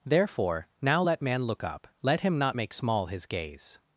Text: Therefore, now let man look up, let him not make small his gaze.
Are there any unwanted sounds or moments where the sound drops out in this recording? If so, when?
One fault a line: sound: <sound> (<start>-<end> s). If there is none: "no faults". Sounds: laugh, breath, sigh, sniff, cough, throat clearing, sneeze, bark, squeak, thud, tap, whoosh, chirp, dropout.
no faults